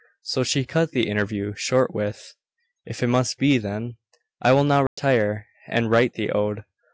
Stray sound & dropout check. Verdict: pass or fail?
fail